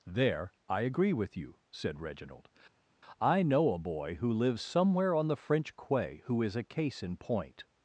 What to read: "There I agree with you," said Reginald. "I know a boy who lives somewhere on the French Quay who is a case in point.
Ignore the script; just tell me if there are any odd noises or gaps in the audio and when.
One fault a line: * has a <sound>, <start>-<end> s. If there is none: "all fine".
all fine